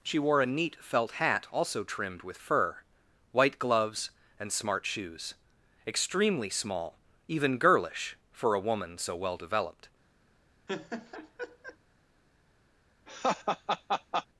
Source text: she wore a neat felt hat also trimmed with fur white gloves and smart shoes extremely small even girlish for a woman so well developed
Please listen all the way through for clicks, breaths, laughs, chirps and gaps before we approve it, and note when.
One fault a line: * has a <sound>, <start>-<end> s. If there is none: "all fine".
* has a laugh, 10.7-11.8 s
* has a laugh, 13.1-14.3 s